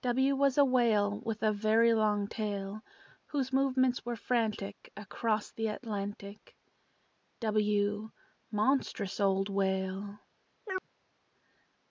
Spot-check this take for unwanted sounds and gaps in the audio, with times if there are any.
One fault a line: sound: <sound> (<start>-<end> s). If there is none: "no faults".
sound: chirp (10.6-10.9 s)